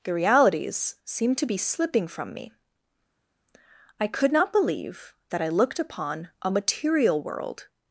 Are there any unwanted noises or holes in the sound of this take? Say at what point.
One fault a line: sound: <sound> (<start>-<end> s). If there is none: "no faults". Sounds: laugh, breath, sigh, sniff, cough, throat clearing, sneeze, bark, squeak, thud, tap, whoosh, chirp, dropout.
no faults